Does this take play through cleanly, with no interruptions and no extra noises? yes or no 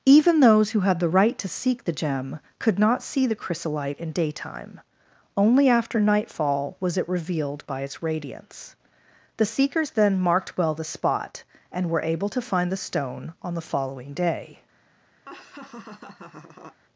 no